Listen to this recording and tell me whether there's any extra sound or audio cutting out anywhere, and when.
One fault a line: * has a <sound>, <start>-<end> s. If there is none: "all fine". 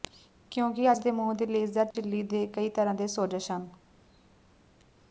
* has a dropout, 1.9-2.0 s